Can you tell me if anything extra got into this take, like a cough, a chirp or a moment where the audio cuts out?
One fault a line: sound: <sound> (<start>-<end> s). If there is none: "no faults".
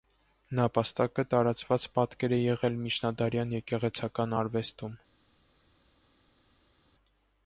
no faults